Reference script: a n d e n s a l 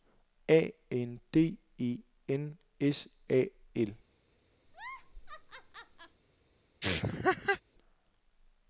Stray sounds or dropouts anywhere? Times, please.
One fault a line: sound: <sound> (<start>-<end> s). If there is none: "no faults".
sound: laugh (4.7-6.2 s)
sound: laugh (6.8-7.6 s)